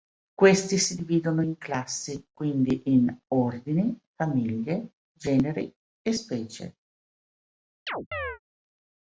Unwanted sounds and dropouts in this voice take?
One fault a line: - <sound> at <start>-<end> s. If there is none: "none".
- chirp at 7.9-8.4 s